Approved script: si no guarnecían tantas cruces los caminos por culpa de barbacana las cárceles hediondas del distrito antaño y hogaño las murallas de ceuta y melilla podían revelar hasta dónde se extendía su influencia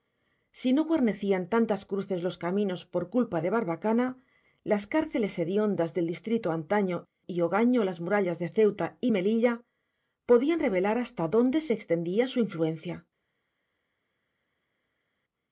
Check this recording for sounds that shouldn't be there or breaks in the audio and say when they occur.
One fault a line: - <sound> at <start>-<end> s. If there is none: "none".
none